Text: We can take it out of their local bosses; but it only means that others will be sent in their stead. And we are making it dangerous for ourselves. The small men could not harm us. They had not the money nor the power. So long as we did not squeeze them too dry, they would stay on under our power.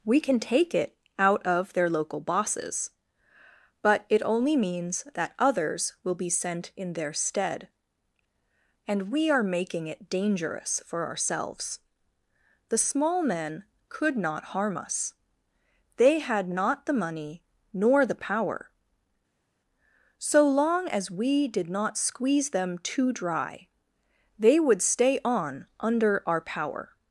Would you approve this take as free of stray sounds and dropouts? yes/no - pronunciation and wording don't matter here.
yes